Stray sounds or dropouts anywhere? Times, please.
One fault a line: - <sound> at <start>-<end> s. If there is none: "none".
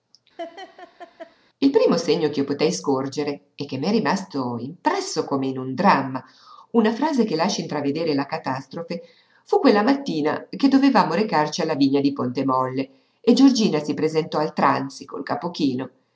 - laugh at 0.4-1.4 s